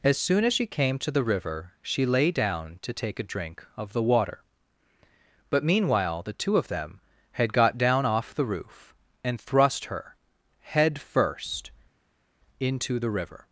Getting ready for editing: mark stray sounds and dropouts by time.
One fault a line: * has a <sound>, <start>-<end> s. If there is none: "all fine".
all fine